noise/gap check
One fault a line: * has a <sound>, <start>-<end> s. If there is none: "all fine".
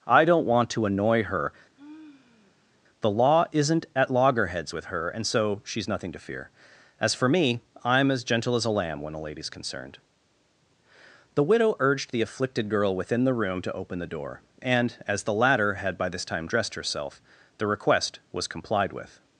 * has a sigh, 1.8-2.8 s